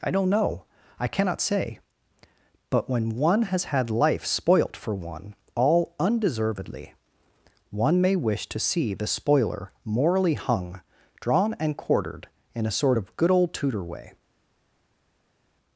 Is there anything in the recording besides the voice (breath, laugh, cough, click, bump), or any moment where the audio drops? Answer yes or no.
no